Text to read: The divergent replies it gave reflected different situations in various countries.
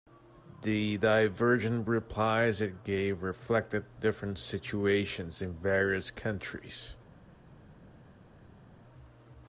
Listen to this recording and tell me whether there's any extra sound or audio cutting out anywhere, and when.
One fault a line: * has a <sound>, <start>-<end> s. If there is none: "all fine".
all fine